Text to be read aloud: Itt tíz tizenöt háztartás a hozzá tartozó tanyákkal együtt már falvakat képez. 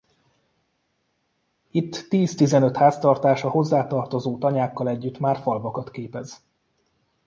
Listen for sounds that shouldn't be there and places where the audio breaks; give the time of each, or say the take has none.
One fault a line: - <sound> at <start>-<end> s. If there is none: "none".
none